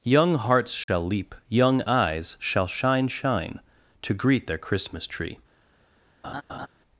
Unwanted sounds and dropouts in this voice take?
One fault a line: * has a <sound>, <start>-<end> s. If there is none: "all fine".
* has a dropout, 0.8-0.9 s
* has a laugh, 6.2-6.7 s